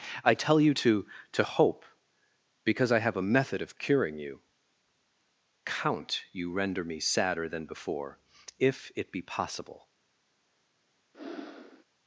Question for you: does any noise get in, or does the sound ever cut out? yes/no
yes